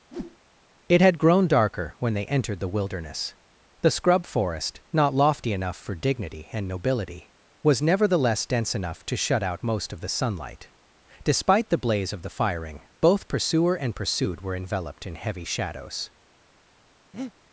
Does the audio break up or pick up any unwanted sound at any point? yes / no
yes